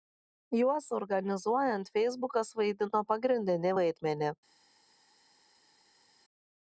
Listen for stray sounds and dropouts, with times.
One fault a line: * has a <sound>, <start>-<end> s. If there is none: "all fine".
all fine